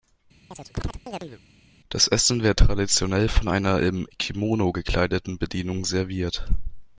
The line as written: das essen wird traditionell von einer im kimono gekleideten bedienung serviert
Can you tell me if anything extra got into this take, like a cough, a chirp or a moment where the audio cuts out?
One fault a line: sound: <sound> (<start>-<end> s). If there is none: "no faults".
sound: chirp (0.5-1.4 s)